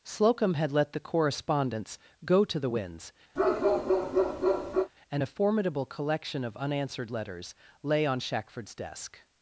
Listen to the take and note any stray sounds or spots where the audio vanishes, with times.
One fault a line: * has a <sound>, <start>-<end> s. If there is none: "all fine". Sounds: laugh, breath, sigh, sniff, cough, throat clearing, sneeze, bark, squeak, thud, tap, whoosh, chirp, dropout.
* has a bark, 3.4-4.9 s